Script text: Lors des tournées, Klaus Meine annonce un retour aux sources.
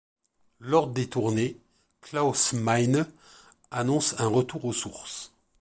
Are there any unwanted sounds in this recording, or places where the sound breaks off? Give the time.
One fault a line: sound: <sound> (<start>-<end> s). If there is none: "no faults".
no faults